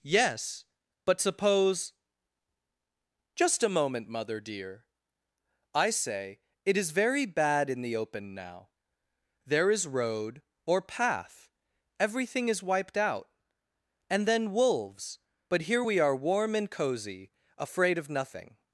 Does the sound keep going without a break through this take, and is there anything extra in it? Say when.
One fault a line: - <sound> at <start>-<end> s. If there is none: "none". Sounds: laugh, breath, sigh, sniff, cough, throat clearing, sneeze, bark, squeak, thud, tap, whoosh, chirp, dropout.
none